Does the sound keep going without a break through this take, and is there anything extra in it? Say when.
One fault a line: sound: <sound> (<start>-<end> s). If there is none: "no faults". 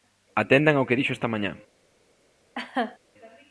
sound: laugh (2.6-3.0 s)